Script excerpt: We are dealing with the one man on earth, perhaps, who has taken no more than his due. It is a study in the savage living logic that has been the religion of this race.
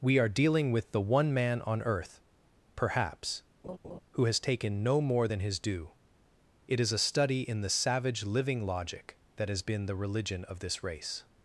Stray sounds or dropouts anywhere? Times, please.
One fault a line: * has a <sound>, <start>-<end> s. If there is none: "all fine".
* has a laugh, 3.6-4.0 s